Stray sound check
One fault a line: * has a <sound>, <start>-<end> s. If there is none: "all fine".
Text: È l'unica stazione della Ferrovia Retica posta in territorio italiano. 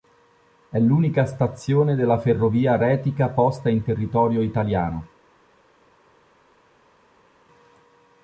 all fine